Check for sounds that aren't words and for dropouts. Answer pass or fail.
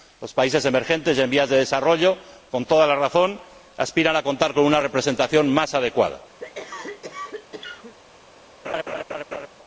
fail